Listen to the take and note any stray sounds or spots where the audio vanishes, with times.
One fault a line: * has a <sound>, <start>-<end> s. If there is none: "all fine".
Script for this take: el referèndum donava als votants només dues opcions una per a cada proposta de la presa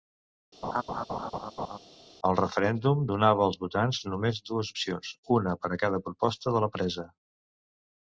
* has a laugh, 0.6-1.8 s